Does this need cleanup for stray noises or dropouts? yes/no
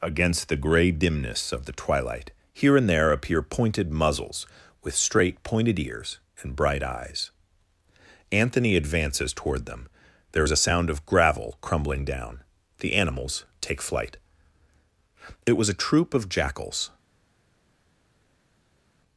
no